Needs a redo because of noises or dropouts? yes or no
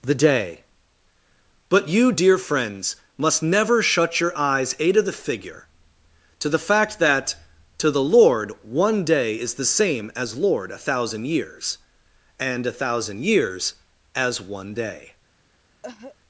yes